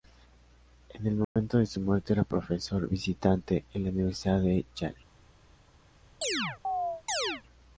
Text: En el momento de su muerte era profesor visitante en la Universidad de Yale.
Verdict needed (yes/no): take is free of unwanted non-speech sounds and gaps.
no